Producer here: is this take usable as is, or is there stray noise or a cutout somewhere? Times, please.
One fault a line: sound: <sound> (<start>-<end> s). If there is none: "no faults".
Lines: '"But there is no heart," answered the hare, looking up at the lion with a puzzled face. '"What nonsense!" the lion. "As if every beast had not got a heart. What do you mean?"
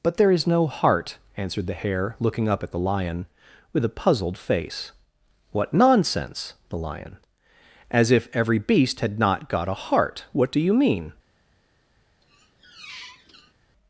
sound: squeak (12.2-13.5 s)